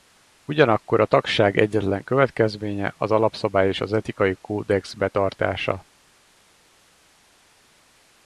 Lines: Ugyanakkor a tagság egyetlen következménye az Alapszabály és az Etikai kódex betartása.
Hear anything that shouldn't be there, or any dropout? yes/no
no